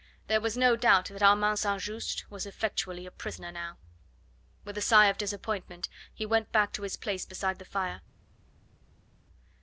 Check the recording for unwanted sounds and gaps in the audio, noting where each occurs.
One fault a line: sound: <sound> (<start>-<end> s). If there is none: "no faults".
no faults